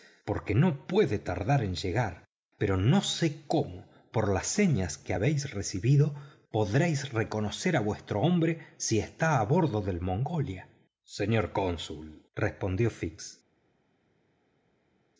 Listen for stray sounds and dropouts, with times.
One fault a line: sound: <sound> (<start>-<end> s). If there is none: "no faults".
no faults